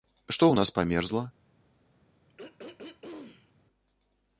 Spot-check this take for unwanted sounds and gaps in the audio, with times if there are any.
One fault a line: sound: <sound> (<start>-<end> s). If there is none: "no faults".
sound: throat clearing (2.3-3.5 s)